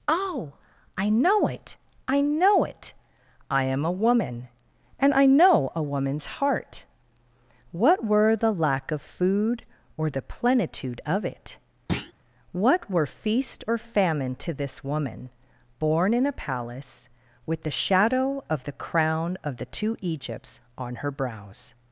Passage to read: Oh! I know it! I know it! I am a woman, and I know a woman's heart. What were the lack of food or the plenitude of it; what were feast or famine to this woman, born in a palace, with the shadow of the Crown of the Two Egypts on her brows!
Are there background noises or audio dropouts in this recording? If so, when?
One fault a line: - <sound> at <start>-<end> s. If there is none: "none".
- thud at 11.9-12.1 s